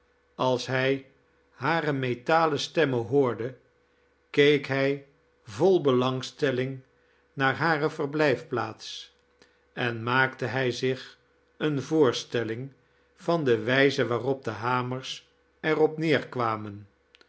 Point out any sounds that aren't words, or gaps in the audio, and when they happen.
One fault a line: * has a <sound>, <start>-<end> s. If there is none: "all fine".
all fine